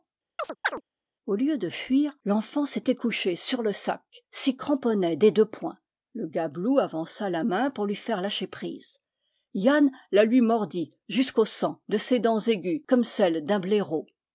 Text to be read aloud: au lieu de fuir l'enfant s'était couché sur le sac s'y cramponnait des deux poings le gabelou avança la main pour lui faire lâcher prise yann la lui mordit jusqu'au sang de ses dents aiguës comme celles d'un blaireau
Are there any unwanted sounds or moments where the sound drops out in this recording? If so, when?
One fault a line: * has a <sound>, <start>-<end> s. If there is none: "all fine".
* has a chirp, 0.4-0.8 s